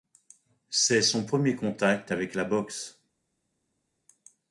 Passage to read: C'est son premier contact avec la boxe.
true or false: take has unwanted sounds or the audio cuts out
false